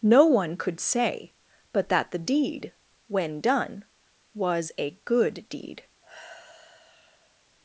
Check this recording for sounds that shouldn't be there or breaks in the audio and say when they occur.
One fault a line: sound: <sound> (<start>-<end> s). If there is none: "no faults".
sound: sigh (6.0-7.4 s)